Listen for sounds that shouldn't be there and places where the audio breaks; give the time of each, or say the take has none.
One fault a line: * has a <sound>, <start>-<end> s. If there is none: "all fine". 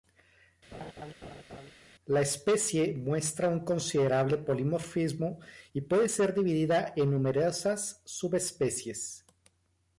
* has a laugh, 0.7-1.7 s